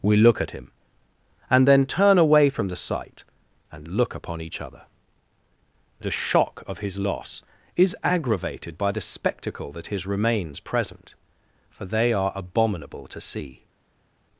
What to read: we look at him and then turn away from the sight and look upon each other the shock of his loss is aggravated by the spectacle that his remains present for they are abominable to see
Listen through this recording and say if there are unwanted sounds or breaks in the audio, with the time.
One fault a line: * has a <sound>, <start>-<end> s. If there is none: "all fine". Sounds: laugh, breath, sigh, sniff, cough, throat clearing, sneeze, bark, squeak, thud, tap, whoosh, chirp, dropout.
all fine